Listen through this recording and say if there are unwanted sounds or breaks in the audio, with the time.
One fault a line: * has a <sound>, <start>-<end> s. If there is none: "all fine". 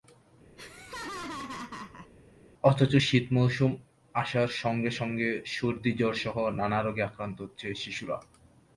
* has a laugh, 0.6-2.1 s